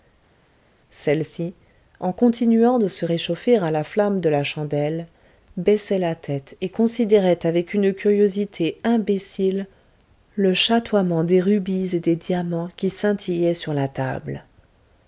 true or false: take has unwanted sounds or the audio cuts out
false